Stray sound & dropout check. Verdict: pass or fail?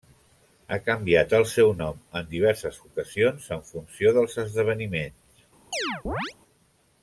fail